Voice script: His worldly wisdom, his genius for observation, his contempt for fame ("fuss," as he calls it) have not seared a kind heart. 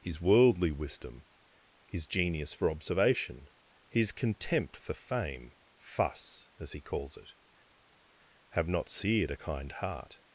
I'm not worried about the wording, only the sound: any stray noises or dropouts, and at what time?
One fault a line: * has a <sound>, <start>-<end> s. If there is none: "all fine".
all fine